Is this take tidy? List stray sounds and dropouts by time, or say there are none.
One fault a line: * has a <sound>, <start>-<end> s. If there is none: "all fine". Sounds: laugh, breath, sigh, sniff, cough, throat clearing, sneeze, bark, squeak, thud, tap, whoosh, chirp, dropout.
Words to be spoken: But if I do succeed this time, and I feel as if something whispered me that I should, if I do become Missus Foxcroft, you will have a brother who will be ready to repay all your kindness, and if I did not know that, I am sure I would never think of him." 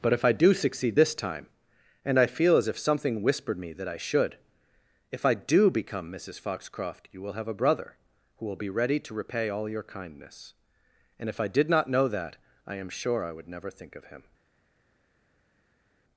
all fine